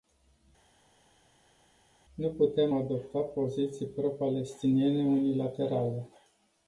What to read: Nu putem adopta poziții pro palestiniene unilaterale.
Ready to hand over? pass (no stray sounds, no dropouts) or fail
pass